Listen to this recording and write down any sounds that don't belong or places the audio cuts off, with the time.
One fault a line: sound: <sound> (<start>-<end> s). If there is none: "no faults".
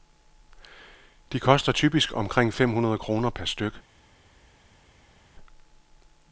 no faults